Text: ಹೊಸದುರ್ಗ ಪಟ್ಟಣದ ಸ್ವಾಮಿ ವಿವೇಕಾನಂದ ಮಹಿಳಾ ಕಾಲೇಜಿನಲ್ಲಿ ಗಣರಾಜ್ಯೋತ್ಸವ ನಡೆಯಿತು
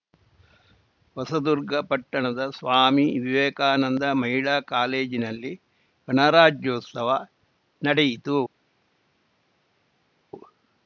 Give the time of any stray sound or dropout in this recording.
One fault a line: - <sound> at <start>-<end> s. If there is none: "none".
none